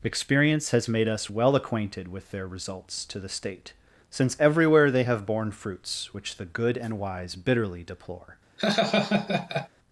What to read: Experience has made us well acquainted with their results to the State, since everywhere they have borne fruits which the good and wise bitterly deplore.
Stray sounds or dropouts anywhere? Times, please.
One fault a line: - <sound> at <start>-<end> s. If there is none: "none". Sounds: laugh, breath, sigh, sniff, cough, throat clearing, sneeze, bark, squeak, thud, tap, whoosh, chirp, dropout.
- laugh at 8.6-9.7 s